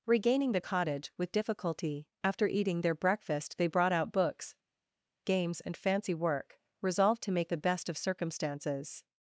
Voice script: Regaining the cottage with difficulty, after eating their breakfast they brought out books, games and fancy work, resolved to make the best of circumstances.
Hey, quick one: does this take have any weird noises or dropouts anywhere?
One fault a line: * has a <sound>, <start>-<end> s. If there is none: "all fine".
all fine